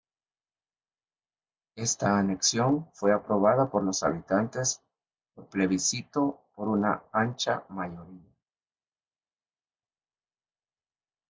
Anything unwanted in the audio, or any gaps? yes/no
no